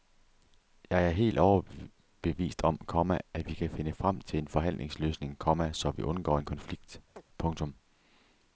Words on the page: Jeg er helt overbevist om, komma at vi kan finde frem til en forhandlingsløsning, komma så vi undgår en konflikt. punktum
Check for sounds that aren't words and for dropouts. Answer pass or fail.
fail